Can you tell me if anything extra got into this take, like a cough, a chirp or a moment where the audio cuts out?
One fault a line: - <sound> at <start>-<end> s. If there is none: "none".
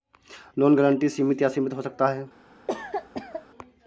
- cough at 2.7-3.5 s